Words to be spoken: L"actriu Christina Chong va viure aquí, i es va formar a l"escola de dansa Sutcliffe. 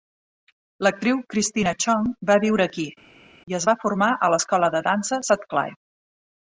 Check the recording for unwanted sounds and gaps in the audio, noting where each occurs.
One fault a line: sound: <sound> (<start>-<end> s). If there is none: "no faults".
no faults